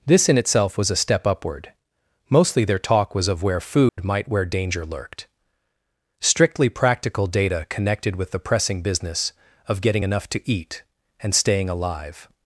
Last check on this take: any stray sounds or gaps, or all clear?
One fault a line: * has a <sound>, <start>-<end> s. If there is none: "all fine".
* has a dropout, 3.9-4.0 s